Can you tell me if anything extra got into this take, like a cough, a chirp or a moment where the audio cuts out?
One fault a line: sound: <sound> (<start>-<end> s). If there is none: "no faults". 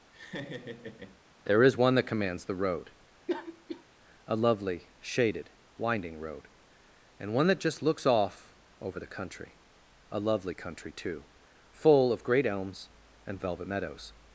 sound: laugh (0.1-1.2 s)
sound: cough (3.3-3.8 s)